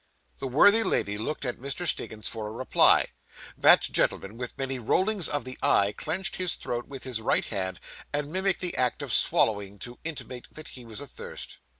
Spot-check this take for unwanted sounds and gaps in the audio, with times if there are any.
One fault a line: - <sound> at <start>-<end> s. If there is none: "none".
none